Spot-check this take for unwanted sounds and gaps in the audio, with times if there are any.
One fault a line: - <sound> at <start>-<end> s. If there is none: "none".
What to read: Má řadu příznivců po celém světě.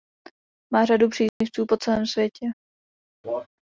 - dropout at 1.3-1.4 s
- cough at 3.2-3.5 s